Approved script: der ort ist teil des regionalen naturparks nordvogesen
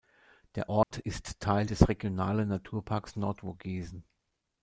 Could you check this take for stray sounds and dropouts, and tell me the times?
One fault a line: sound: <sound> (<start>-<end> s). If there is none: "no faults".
sound: dropout (0.8-0.9 s)